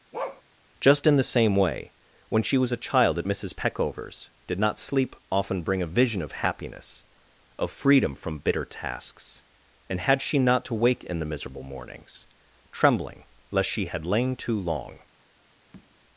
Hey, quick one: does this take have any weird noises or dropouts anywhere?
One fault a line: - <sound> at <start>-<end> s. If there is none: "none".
- bark at 0.1-0.4 s
- tap at 15.7-16.0 s